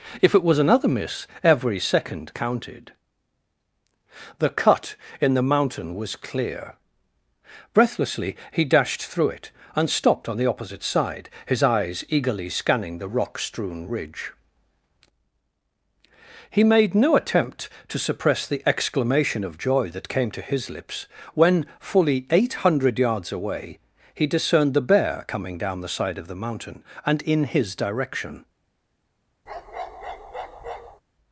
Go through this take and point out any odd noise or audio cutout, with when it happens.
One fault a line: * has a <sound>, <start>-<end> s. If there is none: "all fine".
* has a bark, 29.5-31.0 s